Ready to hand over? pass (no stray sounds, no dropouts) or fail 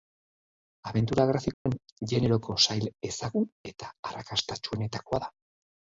fail